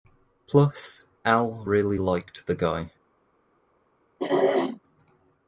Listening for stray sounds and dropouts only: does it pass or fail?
fail